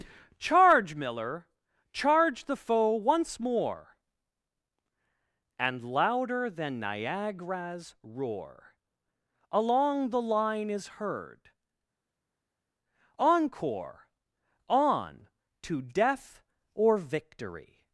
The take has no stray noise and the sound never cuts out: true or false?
true